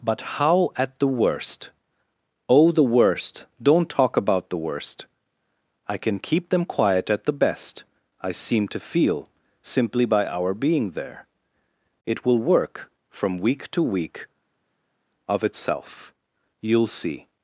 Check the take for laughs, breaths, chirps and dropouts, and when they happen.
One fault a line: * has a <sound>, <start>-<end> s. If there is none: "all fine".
all fine